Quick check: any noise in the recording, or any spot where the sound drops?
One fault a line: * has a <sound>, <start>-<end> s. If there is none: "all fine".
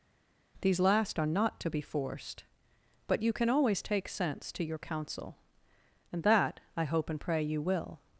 all fine